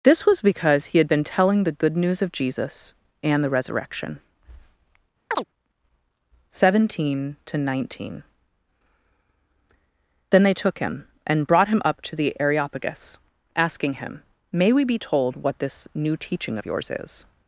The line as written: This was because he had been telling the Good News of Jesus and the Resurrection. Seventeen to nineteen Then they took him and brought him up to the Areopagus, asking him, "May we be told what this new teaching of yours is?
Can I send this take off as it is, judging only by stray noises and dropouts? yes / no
no